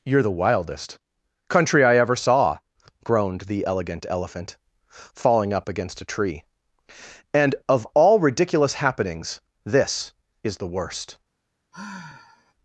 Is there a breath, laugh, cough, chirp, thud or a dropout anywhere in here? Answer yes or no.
yes